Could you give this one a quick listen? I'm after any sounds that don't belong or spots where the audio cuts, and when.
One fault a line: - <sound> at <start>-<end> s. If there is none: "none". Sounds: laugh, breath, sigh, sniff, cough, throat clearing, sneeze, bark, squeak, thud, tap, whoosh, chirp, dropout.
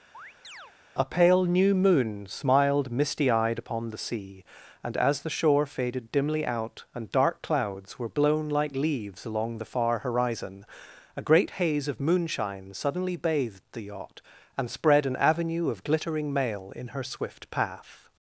- chirp at 0.1-0.7 s